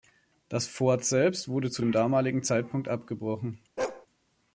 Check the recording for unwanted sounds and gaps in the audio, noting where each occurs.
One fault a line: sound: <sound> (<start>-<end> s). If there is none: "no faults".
sound: bark (3.8-4.1 s)